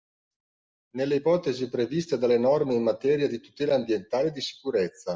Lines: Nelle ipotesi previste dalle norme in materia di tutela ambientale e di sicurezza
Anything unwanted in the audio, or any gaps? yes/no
no